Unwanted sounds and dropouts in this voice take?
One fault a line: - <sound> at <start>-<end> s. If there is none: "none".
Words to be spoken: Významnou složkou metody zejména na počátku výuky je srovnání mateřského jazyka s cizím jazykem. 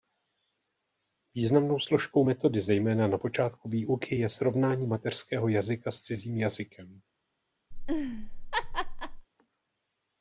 - laugh at 7.7-9.3 s